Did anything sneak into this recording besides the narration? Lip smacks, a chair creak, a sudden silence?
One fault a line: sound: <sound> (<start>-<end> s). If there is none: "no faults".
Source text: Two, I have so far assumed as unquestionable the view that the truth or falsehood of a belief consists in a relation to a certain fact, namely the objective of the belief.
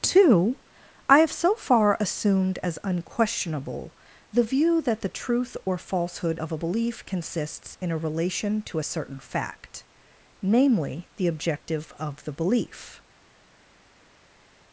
no faults